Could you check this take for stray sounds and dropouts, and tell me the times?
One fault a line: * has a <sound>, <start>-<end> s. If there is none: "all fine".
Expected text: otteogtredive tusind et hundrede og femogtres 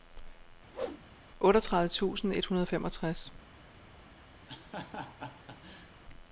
* has a whoosh, 0.7-1.0 s
* has a laugh, 4.5-6.0 s